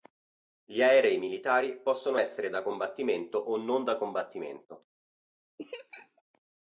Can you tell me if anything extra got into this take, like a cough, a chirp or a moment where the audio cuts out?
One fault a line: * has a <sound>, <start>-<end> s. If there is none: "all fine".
* has a laugh, 5.6-6.2 s